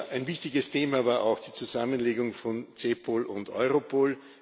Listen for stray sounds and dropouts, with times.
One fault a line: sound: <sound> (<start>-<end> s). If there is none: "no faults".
no faults